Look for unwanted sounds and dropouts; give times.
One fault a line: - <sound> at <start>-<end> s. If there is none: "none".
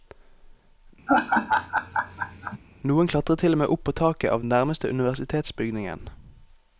- laugh at 1.1-2.6 s